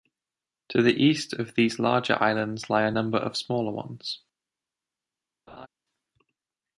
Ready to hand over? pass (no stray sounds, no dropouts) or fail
fail